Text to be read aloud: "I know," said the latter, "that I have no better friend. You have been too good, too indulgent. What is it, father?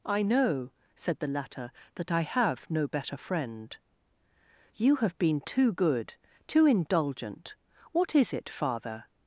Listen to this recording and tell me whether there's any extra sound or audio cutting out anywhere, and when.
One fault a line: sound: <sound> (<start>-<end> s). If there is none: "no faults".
no faults